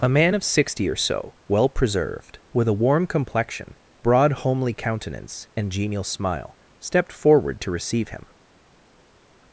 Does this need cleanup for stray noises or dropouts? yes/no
no